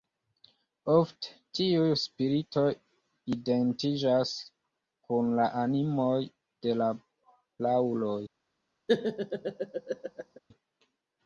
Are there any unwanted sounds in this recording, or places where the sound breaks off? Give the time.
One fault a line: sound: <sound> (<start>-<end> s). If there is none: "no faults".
sound: laugh (8.9-10.4 s)